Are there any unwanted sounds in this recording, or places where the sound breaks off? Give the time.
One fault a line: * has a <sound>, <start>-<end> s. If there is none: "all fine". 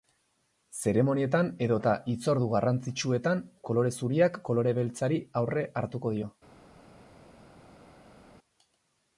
all fine